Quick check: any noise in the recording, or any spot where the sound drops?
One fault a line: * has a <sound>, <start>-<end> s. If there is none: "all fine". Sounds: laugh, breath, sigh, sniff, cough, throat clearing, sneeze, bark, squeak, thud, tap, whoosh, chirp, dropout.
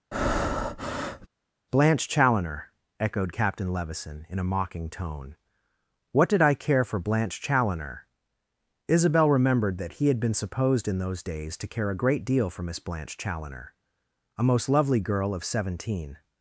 * has a breath, 0.1-1.3 s